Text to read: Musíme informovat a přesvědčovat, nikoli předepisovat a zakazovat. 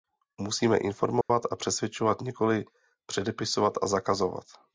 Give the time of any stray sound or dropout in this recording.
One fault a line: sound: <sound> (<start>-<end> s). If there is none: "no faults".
sound: dropout (1.2-1.3 s)